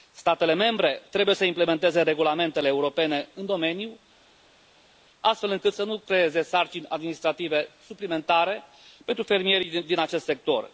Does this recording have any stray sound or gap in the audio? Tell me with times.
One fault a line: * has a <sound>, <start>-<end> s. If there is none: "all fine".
all fine